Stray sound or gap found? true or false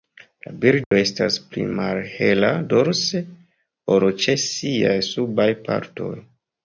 true